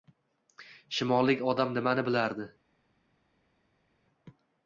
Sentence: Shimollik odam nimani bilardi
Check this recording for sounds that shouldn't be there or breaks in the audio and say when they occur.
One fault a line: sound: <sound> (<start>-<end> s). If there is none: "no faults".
no faults